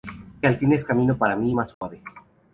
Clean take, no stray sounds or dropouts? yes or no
no